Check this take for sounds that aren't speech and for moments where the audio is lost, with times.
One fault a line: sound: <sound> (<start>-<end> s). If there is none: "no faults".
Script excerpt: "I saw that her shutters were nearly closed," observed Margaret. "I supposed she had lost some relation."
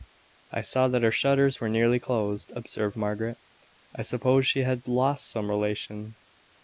no faults